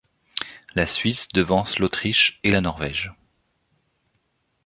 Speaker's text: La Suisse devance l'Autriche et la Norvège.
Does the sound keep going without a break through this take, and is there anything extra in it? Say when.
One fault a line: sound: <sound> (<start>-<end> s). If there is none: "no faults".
no faults